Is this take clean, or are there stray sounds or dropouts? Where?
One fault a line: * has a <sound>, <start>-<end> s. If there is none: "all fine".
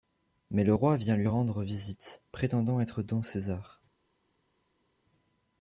all fine